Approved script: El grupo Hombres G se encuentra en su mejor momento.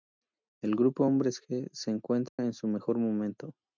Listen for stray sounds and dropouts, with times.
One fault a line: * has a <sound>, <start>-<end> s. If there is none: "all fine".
* has a dropout, 2.3-2.4 s